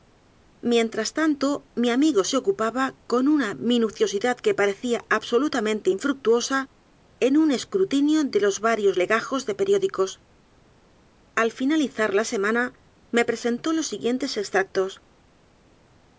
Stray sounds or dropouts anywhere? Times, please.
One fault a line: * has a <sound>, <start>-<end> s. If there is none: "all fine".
all fine